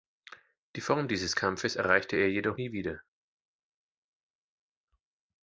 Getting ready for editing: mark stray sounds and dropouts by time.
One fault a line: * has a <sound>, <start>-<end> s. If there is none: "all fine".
all fine